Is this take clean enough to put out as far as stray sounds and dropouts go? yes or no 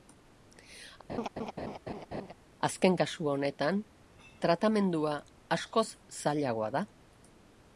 no